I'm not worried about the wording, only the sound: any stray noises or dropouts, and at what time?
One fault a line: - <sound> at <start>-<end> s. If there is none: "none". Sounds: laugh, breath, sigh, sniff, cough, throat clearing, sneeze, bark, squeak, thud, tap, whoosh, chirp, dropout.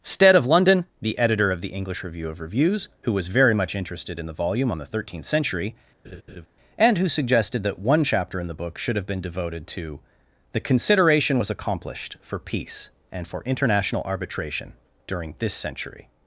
- laugh at 6.0-6.5 s